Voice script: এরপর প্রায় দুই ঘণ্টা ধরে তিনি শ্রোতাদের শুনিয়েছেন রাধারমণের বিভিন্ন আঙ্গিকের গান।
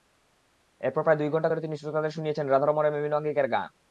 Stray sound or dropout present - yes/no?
no